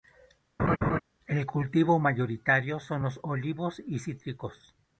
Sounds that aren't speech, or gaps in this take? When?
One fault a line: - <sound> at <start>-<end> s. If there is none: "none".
- laugh at 0.6-1.0 s